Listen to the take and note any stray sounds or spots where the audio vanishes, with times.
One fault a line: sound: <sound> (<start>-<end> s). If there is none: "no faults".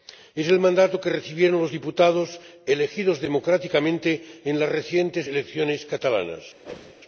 sound: whoosh (6.6-6.9 s)